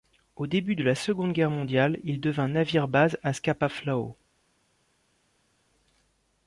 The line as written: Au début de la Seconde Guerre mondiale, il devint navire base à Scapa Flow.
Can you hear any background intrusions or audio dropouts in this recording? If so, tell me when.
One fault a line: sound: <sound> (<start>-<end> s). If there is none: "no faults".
no faults